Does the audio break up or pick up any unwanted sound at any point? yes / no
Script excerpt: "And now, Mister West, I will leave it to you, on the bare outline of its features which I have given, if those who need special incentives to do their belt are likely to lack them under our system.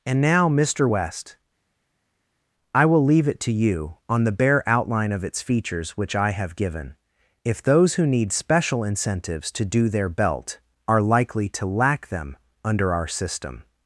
no